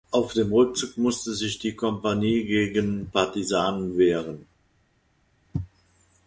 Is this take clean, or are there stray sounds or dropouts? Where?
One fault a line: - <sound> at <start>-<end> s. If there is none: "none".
none